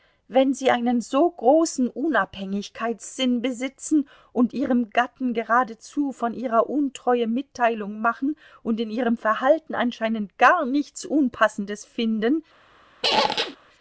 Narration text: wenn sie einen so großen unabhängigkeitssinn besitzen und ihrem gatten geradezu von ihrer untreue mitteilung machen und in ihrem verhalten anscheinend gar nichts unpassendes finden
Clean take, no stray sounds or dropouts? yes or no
no